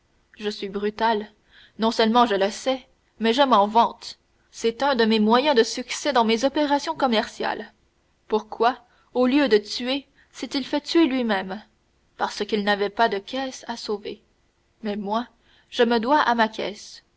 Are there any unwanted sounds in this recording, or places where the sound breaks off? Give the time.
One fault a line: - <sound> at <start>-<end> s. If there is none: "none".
none